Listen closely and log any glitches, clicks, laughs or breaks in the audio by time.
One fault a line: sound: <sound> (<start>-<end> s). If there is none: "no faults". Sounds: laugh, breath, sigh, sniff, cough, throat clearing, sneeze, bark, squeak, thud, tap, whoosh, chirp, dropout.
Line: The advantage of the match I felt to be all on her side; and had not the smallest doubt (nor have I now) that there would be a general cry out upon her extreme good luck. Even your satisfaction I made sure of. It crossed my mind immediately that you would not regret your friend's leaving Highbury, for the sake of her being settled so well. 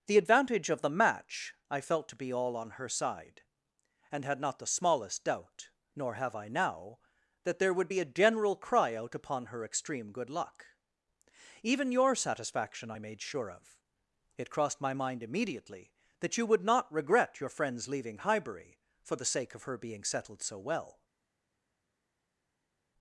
no faults